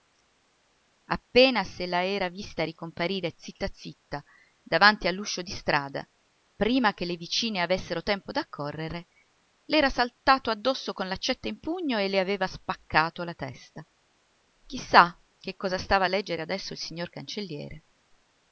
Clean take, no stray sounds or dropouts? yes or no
yes